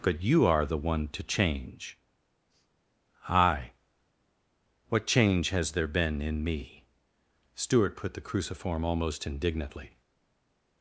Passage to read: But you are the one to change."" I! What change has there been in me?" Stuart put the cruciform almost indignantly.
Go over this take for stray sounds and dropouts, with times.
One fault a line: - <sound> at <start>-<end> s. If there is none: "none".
none